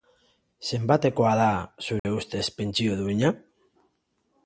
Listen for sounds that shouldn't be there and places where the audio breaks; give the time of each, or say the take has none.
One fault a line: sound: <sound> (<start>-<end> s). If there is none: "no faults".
sound: dropout (2.0-2.0 s)